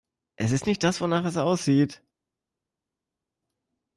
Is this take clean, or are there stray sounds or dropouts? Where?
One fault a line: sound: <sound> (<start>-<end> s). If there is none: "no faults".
no faults